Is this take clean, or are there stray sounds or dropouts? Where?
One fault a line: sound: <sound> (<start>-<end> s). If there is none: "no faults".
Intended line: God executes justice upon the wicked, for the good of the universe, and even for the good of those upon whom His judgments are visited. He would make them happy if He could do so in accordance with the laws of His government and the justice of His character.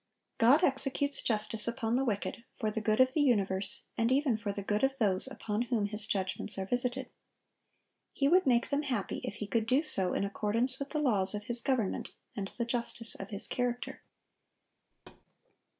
sound: thud (14.9-15.3 s)